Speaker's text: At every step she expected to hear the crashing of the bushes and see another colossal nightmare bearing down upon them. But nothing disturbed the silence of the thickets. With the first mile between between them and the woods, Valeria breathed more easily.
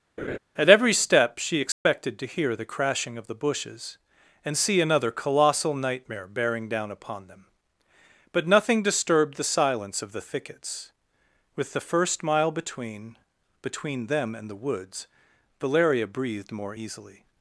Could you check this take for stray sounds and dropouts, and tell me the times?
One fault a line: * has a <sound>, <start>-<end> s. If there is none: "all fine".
* has a laugh, 0.2-0.4 s
* has a dropout, 1.7-1.9 s